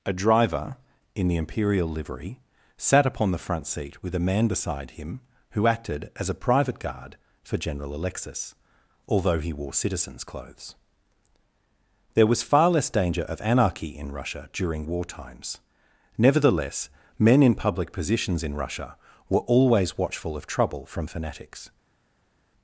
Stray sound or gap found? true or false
false